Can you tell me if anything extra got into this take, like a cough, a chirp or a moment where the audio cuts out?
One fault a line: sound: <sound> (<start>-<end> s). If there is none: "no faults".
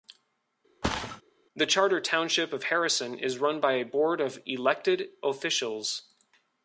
sound: thud (0.8-1.2 s)